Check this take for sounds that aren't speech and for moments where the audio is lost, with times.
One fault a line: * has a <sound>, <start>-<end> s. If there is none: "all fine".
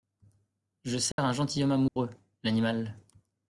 * has a dropout, 1.1-1.2 s
* has a dropout, 1.9-2.0 s